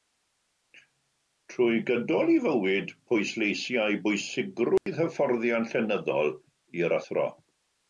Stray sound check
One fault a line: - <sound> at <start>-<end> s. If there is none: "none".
- dropout at 4.8-4.9 s